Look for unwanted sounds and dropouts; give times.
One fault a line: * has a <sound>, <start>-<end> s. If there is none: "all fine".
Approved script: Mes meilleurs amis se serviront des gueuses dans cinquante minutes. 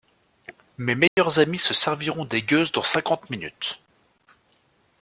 * has a dropout, 1.1-1.2 s